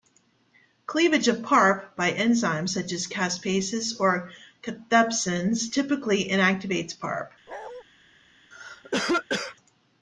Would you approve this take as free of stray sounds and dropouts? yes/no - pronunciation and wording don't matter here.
no